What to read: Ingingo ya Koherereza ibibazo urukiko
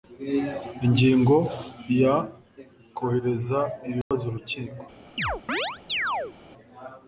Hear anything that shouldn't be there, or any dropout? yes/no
yes